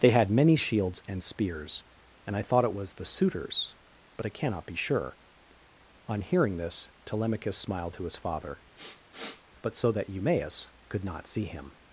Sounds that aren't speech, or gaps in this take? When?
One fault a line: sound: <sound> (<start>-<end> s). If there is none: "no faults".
sound: sniff (8.7-9.4 s)